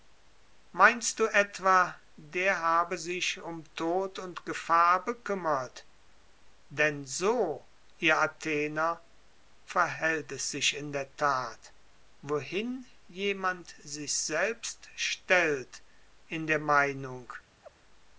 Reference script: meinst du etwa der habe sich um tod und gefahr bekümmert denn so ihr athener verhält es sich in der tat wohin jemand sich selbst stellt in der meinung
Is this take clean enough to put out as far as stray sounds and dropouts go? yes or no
no